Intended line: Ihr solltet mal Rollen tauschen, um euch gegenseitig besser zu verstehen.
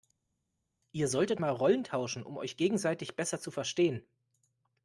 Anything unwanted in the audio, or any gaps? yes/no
no